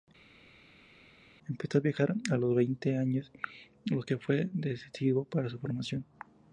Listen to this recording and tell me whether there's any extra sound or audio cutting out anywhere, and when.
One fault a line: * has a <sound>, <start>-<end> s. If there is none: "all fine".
all fine